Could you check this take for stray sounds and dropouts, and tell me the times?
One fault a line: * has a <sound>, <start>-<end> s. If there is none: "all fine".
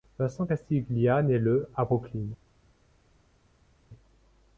all fine